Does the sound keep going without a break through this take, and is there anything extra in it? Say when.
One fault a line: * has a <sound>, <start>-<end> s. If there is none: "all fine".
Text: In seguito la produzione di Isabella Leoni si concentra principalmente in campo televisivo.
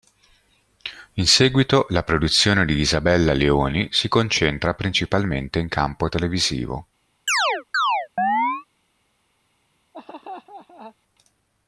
* has a chirp, 7.3-8.7 s
* has a laugh, 9.9-11.0 s